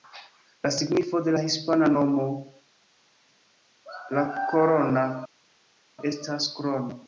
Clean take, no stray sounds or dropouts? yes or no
yes